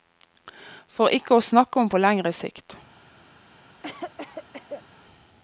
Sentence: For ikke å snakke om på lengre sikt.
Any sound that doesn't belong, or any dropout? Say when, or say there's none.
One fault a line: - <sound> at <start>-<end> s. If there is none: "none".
- cough at 3.8-4.9 s